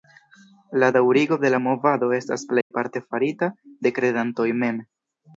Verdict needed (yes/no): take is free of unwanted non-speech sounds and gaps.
no